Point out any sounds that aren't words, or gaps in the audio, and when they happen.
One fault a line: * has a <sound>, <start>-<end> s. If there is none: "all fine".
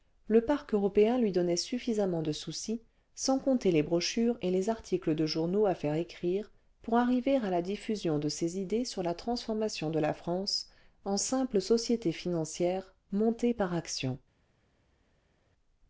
all fine